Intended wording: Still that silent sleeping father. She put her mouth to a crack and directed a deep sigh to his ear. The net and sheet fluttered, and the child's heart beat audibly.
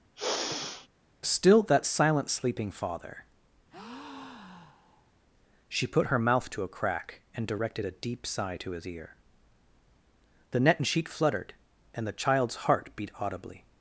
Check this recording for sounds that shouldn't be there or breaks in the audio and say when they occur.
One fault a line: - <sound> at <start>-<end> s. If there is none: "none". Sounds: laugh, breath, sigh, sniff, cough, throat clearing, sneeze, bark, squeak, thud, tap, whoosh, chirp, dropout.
- sigh at 0.2-0.9 s
- breath at 3.7-5.1 s